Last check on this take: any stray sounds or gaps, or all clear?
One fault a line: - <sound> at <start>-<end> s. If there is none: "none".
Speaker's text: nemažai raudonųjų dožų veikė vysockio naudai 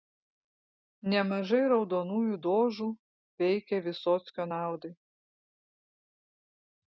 none